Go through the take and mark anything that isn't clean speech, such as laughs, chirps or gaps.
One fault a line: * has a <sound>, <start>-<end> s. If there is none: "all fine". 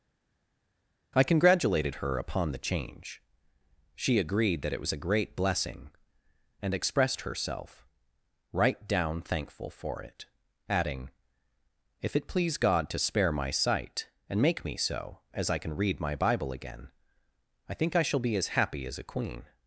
all fine